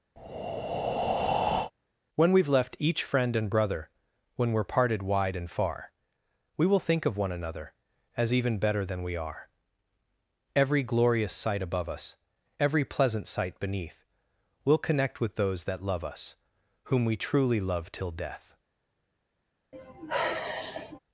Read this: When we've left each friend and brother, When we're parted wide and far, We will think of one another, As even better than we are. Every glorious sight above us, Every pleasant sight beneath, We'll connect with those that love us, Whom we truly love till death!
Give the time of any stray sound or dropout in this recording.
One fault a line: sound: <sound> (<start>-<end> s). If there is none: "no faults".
sound: breath (0.2-1.7 s)
sound: sigh (19.7-21.0 s)